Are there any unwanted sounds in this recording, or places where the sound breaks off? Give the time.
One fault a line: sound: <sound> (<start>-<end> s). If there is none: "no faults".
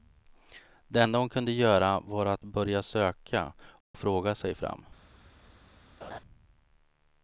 sound: dropout (3.8-3.9 s)
sound: laugh (6.0-6.2 s)